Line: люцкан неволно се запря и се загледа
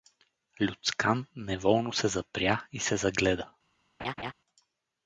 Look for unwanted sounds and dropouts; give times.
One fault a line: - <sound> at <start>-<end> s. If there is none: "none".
- laugh at 4.0-4.3 s